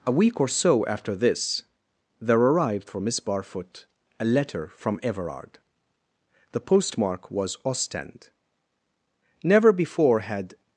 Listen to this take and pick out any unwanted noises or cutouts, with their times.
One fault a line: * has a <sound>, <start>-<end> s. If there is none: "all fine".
all fine